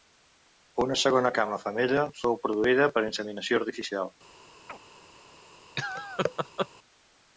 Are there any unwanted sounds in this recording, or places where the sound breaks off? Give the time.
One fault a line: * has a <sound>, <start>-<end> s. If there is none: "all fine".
* has a chirp, 4.7-4.8 s
* has a laugh, 5.8-6.7 s